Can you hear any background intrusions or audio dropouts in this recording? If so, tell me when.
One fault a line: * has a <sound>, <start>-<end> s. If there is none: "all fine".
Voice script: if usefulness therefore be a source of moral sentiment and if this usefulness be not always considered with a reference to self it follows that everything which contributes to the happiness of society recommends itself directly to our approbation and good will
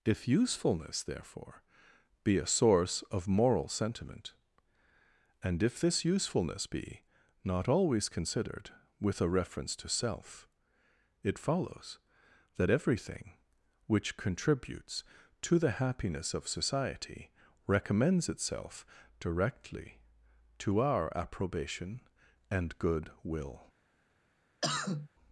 * has a cough, 24.6-25.1 s